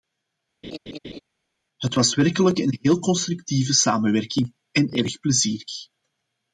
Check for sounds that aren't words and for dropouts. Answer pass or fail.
fail